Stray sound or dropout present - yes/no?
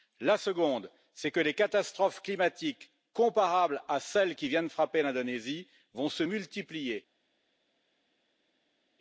no